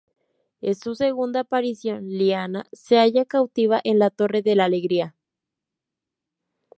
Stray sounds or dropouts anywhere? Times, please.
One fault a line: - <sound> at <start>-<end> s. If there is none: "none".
none